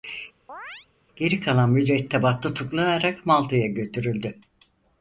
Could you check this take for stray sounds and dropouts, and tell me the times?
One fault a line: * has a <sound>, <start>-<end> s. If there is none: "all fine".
* has a chirp, 0.5-0.9 s